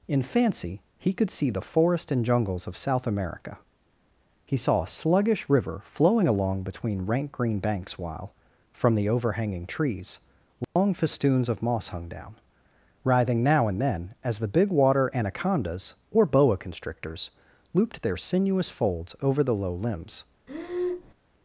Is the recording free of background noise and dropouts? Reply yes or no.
no